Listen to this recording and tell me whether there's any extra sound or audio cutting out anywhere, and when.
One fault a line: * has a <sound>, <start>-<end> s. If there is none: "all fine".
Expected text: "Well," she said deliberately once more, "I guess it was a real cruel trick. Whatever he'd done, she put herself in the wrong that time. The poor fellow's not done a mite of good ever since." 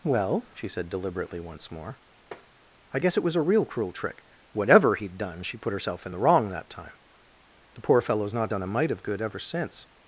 * has a tap, 2.3-2.5 s